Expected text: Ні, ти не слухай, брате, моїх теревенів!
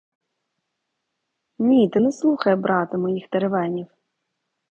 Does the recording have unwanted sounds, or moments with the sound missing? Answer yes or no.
no